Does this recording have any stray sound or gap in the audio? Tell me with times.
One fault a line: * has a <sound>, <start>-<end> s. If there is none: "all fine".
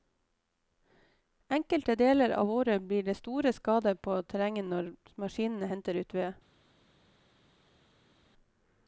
all fine